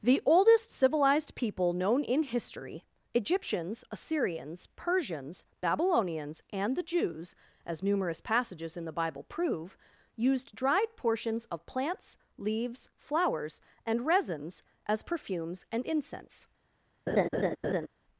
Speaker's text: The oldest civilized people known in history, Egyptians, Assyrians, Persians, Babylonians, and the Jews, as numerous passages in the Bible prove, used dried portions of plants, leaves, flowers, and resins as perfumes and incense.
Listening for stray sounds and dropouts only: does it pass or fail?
fail